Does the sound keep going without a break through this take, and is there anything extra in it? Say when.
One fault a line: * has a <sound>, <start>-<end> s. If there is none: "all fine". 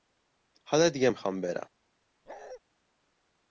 * has a bark, 2.3-2.6 s